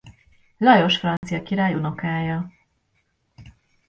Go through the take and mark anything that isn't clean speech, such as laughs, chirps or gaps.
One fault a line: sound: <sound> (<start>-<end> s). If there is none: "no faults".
sound: dropout (1.2-1.2 s)